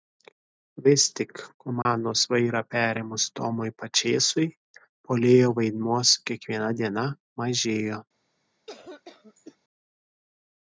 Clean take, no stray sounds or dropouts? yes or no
no